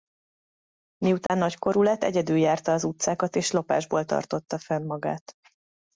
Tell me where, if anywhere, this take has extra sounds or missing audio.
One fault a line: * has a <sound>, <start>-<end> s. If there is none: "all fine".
* has a dropout, 1.3-1.3 s